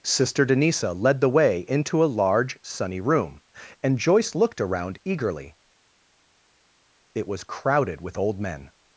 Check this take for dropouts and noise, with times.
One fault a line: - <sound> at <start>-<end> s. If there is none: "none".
none